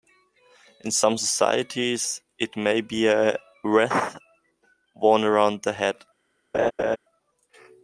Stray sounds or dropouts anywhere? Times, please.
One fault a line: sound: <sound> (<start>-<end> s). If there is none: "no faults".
sound: laugh (6.5-7.0 s)